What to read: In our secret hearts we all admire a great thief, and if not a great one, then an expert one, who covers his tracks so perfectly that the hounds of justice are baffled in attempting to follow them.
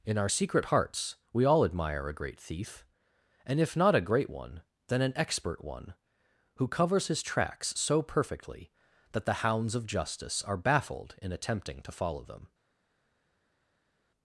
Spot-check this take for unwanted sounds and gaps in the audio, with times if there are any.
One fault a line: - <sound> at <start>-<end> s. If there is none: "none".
none